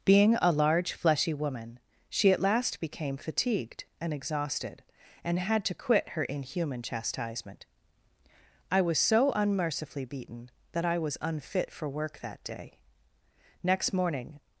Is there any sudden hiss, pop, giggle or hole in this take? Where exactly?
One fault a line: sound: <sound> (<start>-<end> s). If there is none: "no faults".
no faults